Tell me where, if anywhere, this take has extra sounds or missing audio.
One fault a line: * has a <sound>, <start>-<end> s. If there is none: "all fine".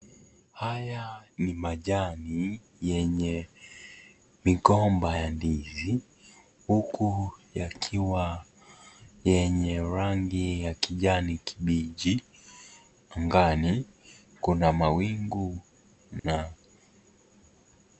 * has a dropout, 16.2-16.2 s